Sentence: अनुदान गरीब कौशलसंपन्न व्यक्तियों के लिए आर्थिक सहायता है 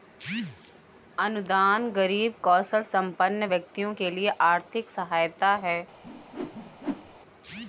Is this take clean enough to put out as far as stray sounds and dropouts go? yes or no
no